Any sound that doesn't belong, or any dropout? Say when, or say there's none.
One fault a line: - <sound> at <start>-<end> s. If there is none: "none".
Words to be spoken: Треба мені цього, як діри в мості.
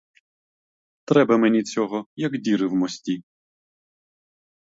none